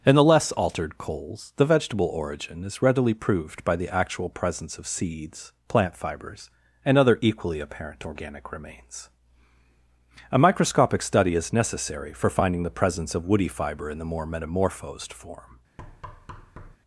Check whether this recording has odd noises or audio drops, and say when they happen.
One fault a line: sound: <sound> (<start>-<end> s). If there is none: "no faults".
sound: thud (15.8-16.8 s)